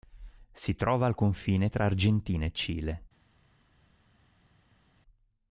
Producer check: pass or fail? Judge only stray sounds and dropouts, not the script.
pass